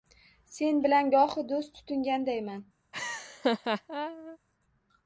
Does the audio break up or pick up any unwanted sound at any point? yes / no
yes